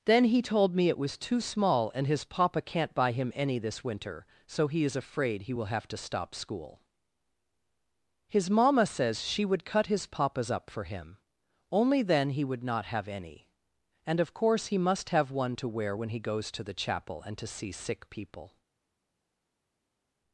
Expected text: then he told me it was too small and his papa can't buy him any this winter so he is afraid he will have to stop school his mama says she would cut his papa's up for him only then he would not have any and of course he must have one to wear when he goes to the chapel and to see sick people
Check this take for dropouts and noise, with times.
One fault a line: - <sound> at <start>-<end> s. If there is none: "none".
none